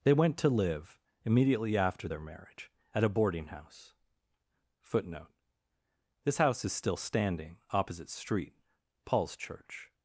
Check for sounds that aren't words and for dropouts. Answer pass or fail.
pass